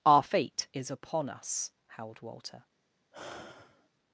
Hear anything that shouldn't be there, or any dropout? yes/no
yes